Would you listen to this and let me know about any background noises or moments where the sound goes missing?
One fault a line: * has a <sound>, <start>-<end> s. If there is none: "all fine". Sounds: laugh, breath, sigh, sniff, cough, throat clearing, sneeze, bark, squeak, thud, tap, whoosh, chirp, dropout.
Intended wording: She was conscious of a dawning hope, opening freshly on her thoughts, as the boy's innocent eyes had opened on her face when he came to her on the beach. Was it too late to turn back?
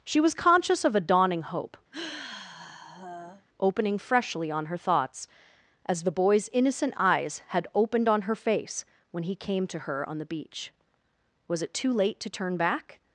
* has a sigh, 1.9-3.5 s